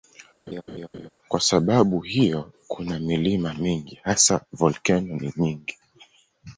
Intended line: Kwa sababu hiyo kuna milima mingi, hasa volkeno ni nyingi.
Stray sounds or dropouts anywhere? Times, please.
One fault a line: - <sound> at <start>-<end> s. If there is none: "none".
- laugh at 0.5-1.1 s